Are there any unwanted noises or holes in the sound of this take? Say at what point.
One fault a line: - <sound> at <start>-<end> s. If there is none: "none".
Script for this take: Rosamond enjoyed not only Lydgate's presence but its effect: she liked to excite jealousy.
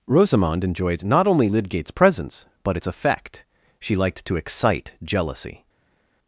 none